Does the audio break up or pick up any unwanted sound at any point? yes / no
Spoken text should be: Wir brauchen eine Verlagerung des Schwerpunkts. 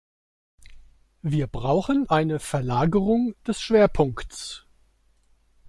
no